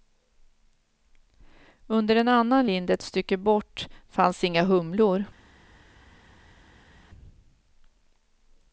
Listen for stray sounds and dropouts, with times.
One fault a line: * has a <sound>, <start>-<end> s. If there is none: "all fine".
all fine